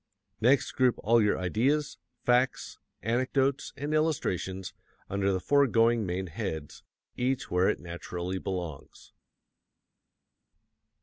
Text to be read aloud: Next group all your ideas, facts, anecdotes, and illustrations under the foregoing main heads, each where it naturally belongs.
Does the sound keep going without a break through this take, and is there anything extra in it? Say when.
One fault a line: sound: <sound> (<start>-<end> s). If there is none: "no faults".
no faults